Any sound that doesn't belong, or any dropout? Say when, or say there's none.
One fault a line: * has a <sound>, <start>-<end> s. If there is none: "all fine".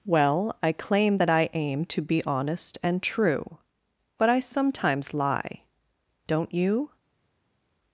all fine